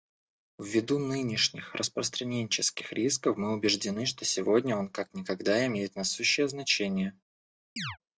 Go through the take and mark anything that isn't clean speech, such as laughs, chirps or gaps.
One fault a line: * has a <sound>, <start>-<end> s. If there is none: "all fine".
* has a chirp, 7.8-8.0 s